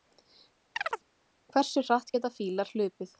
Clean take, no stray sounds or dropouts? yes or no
no